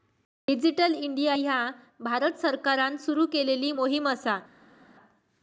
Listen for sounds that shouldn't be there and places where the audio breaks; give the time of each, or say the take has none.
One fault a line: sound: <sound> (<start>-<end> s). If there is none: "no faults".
no faults